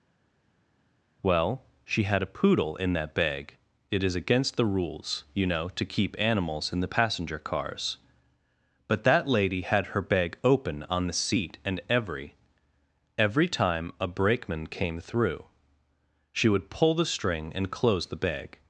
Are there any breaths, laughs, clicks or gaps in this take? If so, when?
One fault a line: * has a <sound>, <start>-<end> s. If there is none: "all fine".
all fine